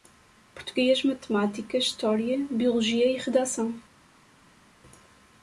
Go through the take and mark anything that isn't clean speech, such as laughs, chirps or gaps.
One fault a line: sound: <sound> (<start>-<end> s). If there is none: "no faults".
no faults